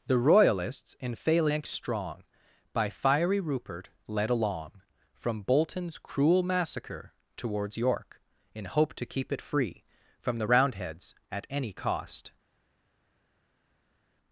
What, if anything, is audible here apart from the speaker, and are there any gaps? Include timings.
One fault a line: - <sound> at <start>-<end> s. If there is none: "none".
none